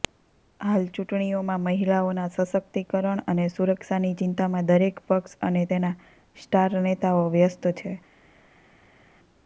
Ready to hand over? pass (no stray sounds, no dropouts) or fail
pass